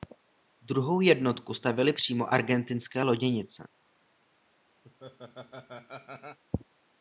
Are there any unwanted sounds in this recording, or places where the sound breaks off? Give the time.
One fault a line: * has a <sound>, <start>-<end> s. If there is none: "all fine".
* has a laugh, 4.8-6.4 s